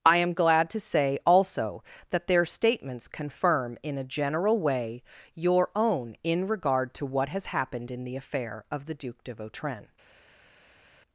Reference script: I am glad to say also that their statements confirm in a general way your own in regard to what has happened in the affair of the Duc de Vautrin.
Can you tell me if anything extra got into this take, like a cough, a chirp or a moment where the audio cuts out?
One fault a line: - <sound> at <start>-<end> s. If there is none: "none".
none